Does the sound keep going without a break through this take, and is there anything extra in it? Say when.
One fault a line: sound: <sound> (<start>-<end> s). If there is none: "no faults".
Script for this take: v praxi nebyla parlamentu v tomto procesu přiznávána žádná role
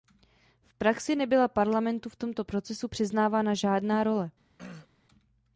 sound: throat clearing (4.6-4.9 s)